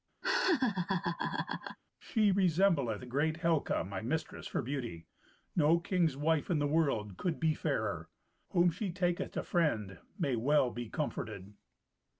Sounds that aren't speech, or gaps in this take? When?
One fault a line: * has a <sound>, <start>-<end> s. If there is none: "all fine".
* has a laugh, 0.2-1.8 s